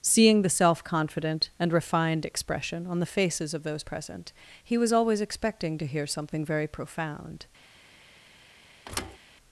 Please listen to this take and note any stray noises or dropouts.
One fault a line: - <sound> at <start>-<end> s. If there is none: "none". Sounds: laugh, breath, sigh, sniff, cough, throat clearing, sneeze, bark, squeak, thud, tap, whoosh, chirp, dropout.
- thud at 8.8-9.2 s